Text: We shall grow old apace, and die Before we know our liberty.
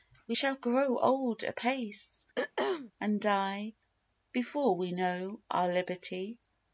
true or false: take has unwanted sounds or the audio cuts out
true